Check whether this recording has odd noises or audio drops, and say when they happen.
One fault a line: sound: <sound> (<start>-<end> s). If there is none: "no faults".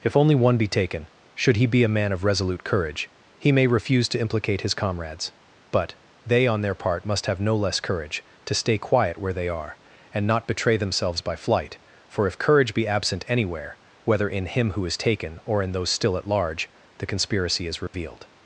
sound: dropout (17.9-17.9 s)